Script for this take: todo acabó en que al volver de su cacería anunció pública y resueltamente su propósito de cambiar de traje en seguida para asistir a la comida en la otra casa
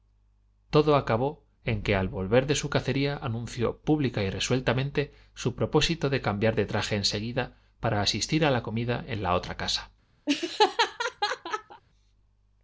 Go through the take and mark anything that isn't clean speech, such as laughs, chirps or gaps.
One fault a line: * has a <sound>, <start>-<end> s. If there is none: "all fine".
* has a laugh, 10.3-11.8 s